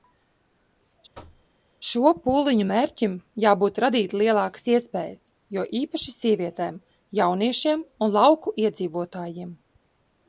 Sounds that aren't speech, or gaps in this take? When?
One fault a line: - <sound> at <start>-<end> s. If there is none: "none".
- thud at 1.1-1.5 s